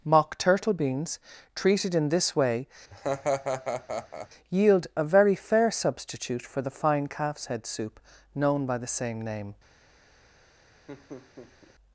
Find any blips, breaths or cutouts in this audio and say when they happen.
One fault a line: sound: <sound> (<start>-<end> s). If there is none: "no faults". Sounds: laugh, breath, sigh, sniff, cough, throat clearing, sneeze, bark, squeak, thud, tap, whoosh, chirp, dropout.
sound: laugh (2.9-4.3 s)
sound: laugh (10.9-11.8 s)